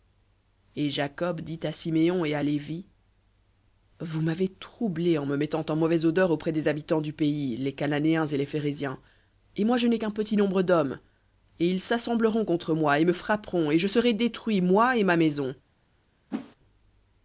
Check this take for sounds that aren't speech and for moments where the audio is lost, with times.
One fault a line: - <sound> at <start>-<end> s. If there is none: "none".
- whoosh at 16.3-16.6 s